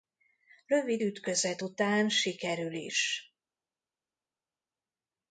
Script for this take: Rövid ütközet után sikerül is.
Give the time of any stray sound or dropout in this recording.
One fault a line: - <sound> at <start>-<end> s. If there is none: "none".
none